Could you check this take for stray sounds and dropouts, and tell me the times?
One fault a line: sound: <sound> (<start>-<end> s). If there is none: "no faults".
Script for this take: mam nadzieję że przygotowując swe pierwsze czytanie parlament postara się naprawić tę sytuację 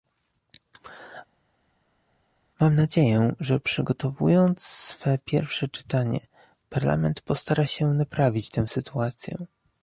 no faults